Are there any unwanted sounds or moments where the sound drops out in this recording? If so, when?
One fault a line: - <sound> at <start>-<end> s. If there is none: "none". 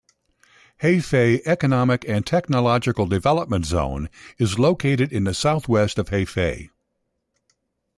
none